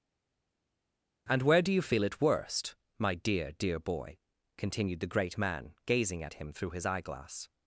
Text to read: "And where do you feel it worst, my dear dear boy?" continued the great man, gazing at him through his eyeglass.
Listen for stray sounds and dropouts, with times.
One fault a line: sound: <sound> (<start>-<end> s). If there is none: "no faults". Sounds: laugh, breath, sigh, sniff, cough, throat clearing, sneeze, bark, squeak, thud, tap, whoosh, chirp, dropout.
no faults